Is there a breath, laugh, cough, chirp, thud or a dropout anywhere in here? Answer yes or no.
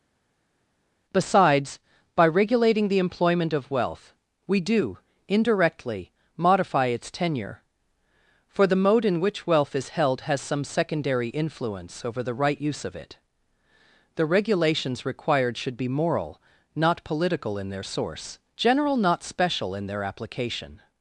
no